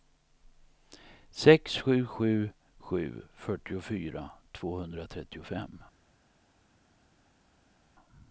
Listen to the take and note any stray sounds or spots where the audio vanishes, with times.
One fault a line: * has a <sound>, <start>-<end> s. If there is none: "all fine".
all fine